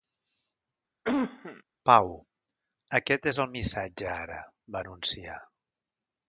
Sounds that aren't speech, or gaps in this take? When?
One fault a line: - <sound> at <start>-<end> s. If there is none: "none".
- cough at 1.0-1.6 s